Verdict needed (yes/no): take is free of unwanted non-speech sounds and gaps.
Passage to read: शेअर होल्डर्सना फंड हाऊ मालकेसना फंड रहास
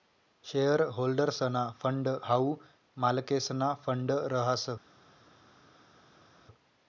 yes